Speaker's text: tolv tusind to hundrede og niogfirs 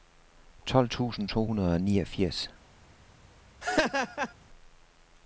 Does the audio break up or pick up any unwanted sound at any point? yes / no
yes